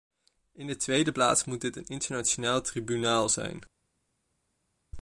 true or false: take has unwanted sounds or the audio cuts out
false